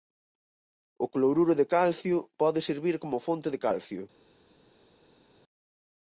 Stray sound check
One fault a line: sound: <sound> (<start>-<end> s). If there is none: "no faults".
no faults